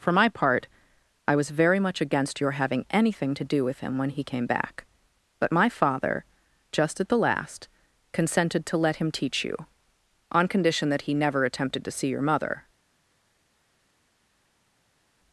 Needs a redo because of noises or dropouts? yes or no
no